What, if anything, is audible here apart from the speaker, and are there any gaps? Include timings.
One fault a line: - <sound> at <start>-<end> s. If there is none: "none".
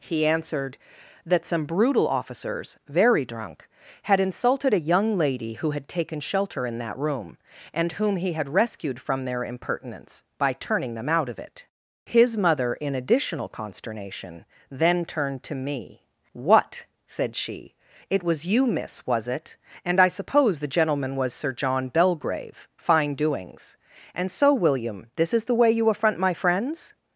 none